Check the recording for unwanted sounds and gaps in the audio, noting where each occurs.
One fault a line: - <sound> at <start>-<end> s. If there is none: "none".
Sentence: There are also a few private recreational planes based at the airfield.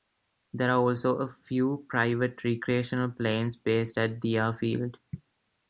none